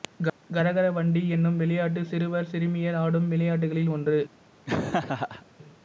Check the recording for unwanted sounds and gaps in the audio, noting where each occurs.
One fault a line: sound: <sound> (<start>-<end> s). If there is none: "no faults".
sound: laugh (4.7-5.5 s)